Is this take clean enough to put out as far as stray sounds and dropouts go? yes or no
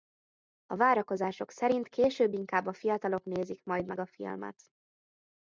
yes